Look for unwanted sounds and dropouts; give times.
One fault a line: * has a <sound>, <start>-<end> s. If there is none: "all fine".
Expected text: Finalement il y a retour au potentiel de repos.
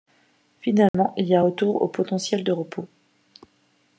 * has a dropout, 0.9-0.9 s